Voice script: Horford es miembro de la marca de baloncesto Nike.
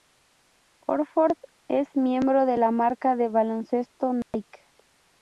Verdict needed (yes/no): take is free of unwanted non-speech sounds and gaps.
no